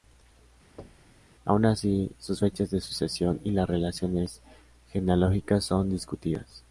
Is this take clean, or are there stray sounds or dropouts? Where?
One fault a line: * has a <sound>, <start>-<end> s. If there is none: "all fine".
* has a thud, 0.8-1.3 s